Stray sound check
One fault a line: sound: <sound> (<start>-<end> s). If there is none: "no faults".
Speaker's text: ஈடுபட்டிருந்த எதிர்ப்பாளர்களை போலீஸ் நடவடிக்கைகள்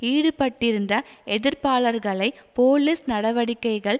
no faults